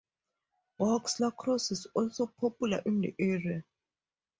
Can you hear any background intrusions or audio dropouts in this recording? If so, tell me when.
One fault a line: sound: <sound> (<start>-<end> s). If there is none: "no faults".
no faults